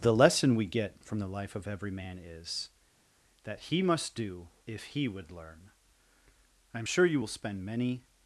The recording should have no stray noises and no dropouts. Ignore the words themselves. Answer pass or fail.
pass